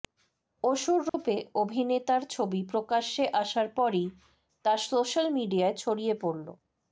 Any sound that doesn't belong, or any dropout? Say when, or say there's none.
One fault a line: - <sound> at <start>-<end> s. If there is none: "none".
- dropout at 1.1-1.1 s